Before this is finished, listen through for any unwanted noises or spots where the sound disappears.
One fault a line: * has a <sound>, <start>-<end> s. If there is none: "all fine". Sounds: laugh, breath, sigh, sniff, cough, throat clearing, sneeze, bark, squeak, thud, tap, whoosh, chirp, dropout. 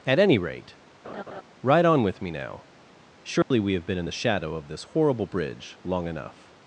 * has a laugh, 1.0-1.4 s
* has a dropout, 3.4-3.5 s